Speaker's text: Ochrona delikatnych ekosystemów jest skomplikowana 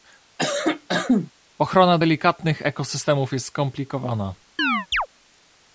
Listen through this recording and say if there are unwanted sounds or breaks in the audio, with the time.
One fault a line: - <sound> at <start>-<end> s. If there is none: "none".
- cough at 0.4-1.3 s
- chirp at 4.6-5.1 s